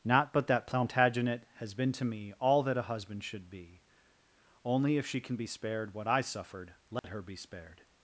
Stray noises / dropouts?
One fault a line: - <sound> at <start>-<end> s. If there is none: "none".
- dropout at 7.0-7.0 s